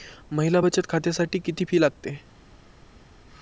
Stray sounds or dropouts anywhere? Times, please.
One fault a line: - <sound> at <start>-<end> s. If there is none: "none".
none